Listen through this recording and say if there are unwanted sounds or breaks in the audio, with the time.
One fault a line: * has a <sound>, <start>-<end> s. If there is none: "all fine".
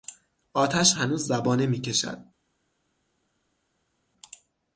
all fine